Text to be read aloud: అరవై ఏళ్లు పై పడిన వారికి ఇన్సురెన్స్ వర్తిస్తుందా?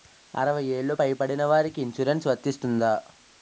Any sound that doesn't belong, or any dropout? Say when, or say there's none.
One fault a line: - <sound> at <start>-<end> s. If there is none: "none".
none